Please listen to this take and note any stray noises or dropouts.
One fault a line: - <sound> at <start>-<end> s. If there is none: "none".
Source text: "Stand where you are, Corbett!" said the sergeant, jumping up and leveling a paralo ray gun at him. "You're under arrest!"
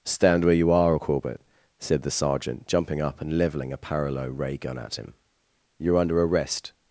none